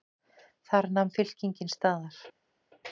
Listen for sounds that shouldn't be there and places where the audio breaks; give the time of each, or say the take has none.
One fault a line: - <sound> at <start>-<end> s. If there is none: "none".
none